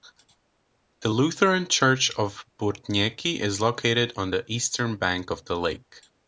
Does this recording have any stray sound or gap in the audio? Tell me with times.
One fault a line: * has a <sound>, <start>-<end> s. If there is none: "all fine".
all fine